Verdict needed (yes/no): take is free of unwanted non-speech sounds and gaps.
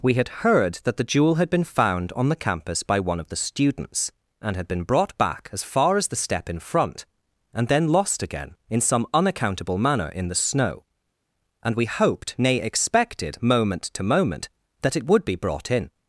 yes